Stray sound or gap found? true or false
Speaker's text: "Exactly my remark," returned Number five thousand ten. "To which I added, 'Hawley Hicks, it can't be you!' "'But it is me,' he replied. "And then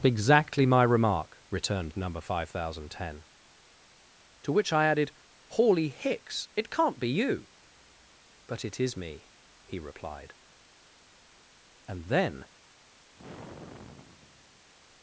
true